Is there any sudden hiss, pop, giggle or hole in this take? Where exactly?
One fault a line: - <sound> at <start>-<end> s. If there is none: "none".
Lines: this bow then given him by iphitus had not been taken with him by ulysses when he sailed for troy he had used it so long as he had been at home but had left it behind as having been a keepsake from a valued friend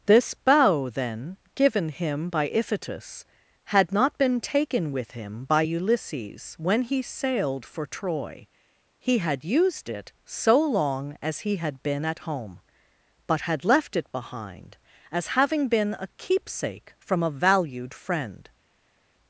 none